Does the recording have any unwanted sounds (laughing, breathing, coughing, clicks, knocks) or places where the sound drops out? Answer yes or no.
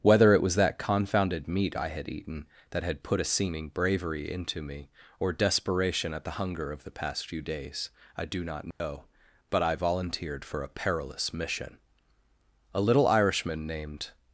yes